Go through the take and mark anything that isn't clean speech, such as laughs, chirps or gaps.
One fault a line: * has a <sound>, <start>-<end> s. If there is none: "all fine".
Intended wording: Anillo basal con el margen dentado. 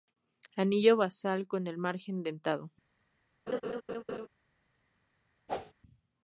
* has a laugh, 3.5-4.3 s
* has a whoosh, 5.5-5.7 s